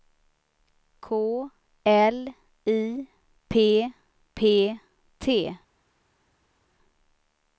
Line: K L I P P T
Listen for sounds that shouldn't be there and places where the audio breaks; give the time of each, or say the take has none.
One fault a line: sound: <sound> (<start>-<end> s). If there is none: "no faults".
no faults